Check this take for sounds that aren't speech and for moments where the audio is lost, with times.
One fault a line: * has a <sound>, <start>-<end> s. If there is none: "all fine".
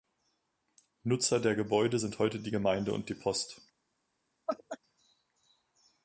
* has a laugh, 4.5-4.8 s